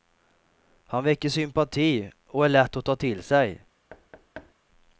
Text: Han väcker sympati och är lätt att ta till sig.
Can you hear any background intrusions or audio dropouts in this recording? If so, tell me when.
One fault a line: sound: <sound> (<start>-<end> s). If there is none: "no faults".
sound: thud (3.9-4.5 s)